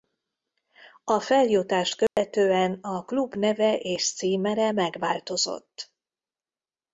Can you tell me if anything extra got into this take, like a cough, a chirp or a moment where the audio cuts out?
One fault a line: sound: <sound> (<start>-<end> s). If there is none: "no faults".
sound: dropout (2.1-2.2 s)